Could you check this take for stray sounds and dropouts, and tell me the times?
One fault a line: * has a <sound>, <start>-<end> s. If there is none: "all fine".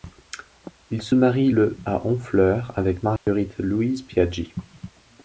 * has a dropout, 3.2-3.3 s